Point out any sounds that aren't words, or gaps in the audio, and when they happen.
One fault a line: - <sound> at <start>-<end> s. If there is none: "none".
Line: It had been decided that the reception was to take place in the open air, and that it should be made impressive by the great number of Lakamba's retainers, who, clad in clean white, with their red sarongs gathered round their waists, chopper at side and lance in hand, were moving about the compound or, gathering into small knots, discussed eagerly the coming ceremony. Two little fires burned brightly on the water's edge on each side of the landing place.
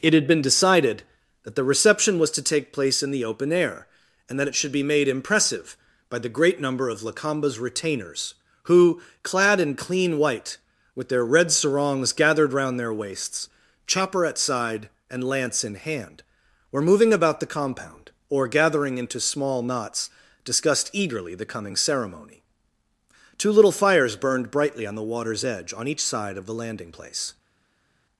none